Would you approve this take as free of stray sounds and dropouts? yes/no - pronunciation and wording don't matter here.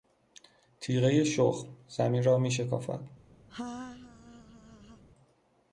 no